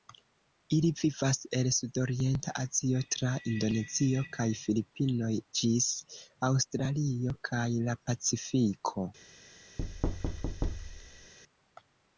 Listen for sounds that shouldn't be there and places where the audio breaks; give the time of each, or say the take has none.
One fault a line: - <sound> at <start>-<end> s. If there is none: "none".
- thud at 9.8-11.3 s